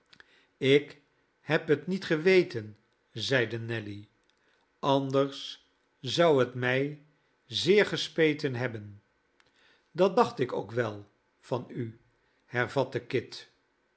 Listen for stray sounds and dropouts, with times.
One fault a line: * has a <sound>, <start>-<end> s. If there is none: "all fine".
all fine